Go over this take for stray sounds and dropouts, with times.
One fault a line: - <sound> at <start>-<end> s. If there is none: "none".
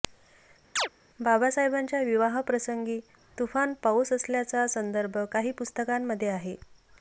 - chirp at 0.8-0.9 s